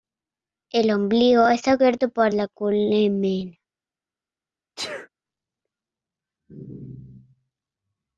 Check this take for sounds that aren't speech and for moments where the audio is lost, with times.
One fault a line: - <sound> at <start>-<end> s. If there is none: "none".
- sneeze at 4.8-5.1 s